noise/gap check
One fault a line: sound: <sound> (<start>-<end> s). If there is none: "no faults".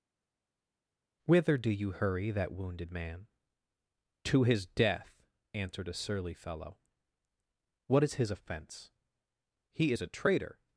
no faults